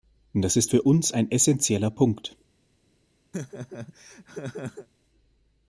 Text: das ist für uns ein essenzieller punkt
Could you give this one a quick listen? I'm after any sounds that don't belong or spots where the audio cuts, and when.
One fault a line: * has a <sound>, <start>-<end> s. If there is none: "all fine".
* has a laugh, 3.3-4.9 s